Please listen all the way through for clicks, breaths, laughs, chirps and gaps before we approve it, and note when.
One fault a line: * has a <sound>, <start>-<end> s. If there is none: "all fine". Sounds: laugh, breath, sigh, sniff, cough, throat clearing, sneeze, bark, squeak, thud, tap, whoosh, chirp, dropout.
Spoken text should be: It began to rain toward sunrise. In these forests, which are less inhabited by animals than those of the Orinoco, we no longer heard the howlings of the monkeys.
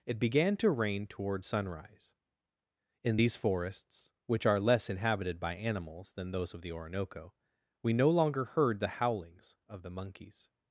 all fine